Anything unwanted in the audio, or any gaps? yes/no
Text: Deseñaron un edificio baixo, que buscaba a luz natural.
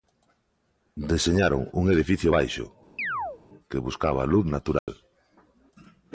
yes